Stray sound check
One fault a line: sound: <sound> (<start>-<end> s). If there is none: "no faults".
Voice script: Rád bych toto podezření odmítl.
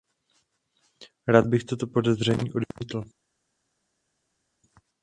no faults